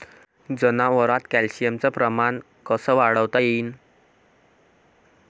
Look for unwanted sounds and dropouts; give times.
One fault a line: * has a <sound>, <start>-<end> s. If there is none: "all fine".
all fine